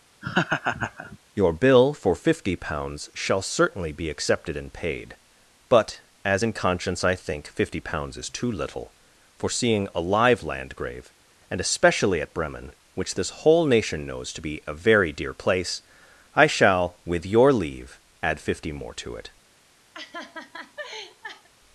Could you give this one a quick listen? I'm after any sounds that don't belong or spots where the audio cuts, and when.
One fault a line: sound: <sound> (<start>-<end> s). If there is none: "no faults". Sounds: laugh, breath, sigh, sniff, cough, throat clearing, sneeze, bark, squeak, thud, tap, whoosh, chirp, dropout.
sound: laugh (0.2-1.2 s)
sound: laugh (19.9-21.5 s)